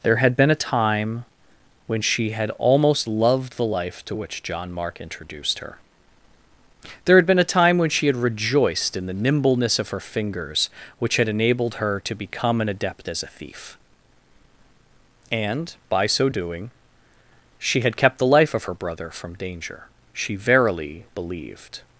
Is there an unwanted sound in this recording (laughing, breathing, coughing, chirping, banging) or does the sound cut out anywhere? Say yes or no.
no